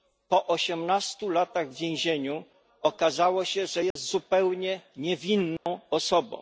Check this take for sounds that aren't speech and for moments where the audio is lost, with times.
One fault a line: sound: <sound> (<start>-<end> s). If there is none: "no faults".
sound: dropout (3.9-4.0 s)
sound: dropout (5.6-5.7 s)